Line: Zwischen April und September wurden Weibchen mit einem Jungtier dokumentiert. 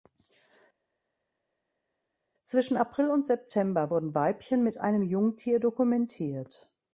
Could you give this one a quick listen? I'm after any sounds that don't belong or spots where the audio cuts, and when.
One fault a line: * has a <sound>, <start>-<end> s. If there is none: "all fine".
all fine